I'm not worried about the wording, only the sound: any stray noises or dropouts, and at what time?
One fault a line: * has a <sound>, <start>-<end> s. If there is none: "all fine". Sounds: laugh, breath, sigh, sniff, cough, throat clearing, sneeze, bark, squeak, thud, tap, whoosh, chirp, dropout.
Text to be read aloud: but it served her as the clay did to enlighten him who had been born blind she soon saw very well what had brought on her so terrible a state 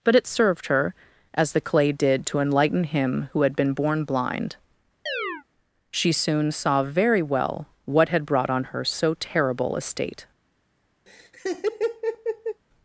* has a chirp, 5.1-5.4 s
* has a laugh, 11.1-12.6 s